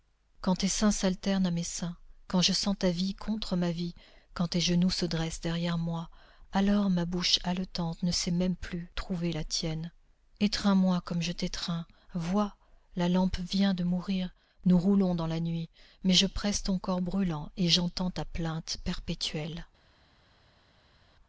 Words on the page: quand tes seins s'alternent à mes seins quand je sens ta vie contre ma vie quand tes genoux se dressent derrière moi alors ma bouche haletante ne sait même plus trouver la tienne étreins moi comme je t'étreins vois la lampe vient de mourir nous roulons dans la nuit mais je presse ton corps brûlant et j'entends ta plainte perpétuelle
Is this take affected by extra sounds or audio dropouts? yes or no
no